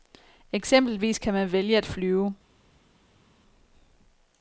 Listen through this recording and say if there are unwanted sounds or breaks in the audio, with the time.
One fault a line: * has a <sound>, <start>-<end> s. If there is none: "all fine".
all fine